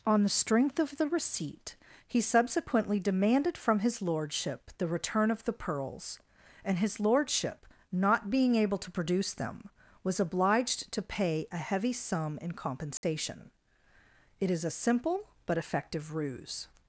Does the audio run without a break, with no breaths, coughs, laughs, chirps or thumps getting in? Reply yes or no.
no